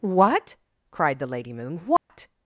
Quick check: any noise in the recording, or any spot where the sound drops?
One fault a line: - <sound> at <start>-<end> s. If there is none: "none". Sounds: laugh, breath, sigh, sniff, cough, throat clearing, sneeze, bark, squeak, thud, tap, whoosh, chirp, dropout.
- dropout at 2.0-2.1 s